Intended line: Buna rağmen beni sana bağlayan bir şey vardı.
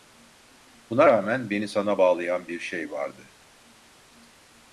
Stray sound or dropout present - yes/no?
no